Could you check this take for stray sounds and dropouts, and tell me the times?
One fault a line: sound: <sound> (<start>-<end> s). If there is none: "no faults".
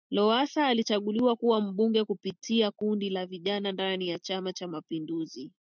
no faults